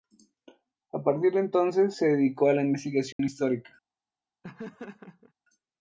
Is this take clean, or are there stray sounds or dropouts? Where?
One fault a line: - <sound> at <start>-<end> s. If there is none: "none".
- dropout at 3.1-3.2 s
- laugh at 4.4-5.3 s